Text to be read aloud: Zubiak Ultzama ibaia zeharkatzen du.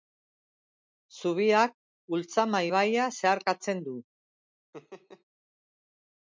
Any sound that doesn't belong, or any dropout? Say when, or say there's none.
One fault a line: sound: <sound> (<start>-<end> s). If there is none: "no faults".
sound: laugh (4.7-5.2 s)